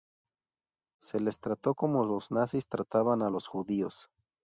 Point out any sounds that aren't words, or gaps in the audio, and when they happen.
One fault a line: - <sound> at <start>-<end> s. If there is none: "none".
none